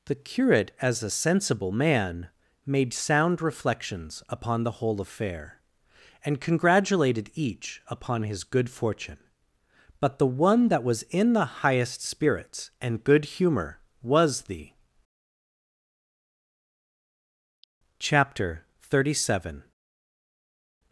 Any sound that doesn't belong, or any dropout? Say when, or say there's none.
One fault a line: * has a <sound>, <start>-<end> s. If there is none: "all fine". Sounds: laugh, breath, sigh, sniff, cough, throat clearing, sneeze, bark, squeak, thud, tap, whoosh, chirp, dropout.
all fine